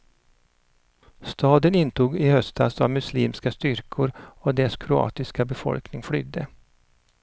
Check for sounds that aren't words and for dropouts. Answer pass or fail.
pass